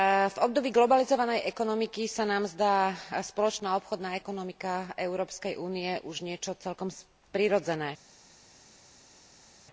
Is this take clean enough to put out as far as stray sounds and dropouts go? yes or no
yes